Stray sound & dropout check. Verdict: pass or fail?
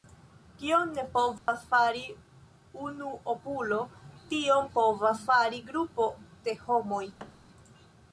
fail